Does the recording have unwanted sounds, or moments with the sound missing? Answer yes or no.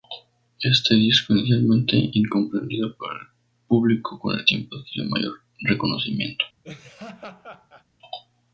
yes